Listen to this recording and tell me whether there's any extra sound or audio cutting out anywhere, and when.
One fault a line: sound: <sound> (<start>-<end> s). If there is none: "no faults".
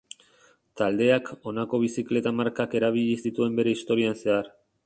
no faults